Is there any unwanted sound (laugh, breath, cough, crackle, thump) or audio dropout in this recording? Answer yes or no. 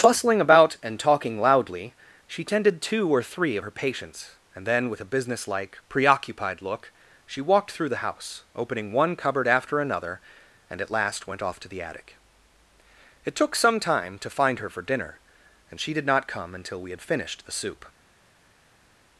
no